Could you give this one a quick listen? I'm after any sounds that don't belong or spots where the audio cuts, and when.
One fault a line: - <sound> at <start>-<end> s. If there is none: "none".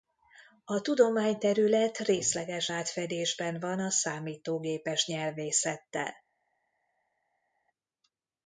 none